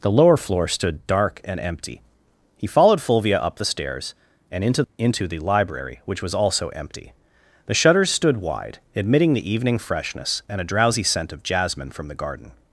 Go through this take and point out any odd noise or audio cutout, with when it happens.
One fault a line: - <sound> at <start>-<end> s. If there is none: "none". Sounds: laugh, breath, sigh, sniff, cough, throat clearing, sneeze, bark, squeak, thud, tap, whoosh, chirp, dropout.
none